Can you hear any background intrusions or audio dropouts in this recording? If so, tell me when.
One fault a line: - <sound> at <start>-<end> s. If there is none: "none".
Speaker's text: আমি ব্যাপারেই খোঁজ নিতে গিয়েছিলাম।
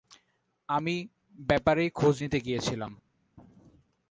none